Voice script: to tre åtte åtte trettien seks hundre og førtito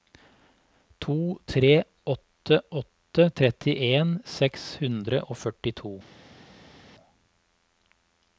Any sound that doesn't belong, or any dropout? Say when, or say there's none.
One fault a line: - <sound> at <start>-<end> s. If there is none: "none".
none